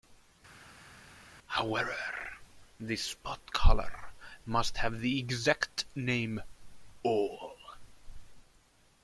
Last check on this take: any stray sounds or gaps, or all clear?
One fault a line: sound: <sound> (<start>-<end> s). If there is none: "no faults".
no faults